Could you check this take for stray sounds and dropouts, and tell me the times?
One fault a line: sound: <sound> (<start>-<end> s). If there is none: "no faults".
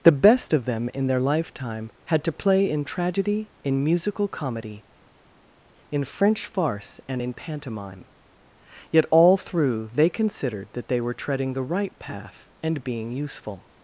no faults